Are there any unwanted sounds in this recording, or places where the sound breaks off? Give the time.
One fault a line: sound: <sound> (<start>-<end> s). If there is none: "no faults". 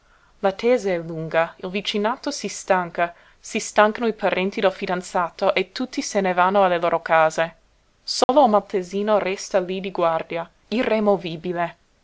sound: dropout (8.2-8.3 s)